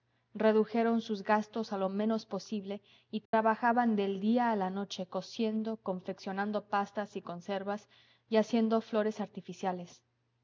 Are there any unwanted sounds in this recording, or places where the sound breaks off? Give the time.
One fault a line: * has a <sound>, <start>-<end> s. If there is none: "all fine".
* has a dropout, 3.3-3.3 s